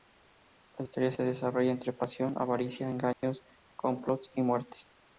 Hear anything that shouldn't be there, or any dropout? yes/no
yes